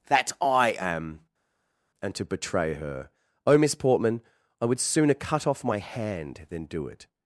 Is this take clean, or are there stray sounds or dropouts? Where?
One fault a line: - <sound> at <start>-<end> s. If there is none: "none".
none